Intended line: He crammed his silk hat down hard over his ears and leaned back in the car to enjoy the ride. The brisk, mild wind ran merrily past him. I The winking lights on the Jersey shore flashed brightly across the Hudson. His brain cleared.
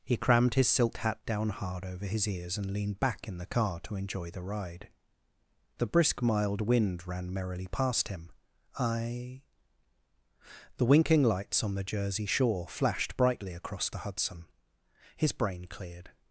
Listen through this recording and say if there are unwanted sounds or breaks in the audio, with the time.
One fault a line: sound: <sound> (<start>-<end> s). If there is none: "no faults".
no faults